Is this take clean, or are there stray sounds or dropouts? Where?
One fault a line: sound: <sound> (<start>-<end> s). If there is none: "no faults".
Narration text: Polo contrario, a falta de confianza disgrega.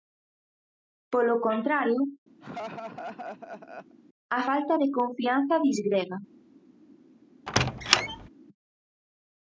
sound: laugh (2.4-4.0 s)
sound: squeak (7.5-8.3 s)